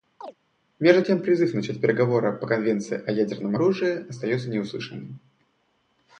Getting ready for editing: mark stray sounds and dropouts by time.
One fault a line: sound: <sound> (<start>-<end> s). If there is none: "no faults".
sound: chirp (0.2-0.3 s)